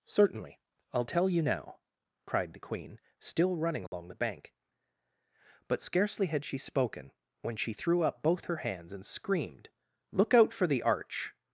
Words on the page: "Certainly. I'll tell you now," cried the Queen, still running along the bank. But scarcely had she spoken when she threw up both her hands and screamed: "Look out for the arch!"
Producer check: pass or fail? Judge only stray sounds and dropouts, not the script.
fail